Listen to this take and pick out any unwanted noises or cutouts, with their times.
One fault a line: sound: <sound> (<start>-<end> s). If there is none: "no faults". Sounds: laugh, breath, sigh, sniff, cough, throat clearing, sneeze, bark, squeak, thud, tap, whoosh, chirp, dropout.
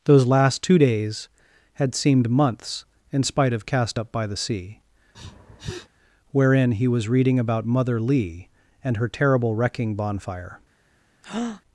sound: sniff (5.1-5.9 s)
sound: breath (11.2-11.6 s)